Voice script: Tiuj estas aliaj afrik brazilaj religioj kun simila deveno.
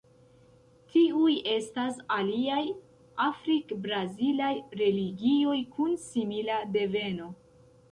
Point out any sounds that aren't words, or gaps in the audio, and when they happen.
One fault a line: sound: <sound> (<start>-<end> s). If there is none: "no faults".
no faults